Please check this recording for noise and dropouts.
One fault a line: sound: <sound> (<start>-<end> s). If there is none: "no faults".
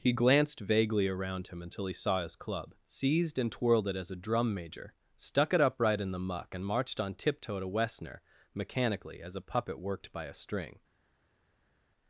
no faults